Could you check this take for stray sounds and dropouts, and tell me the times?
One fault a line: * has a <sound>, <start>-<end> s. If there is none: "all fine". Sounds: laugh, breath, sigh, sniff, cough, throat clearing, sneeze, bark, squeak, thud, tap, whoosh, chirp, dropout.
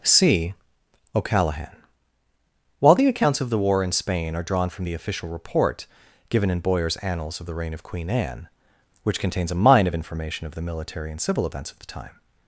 all fine